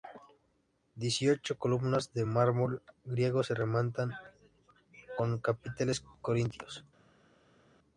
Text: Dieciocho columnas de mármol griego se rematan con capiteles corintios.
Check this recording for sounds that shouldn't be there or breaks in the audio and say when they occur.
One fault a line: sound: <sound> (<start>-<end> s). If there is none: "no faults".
no faults